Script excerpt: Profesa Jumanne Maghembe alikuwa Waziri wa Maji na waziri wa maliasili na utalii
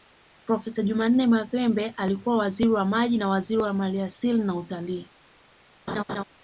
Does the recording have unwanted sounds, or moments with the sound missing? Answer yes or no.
yes